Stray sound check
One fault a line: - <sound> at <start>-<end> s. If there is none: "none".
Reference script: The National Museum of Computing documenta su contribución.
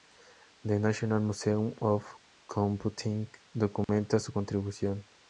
- dropout at 3.8-3.9 s